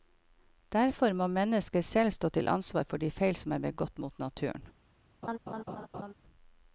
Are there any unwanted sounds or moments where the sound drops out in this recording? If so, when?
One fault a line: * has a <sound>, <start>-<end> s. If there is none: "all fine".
* has a laugh, 5.2-6.1 s